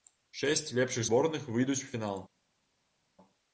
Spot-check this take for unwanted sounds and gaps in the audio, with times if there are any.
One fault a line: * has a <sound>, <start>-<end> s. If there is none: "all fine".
all fine